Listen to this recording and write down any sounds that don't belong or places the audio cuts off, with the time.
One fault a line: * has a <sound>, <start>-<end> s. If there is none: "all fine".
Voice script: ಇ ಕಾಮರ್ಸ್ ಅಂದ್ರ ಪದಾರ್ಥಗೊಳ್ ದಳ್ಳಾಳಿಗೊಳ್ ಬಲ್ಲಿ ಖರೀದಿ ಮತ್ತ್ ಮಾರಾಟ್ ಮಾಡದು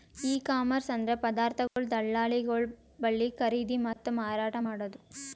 * has a dropout, 1.7-1.8 s
* has a dropout, 3.9-4.0 s